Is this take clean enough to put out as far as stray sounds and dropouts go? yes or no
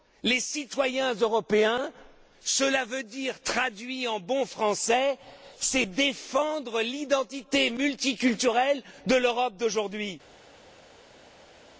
yes